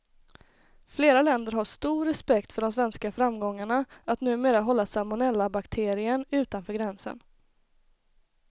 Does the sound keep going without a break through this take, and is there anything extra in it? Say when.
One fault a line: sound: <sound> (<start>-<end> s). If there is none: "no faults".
no faults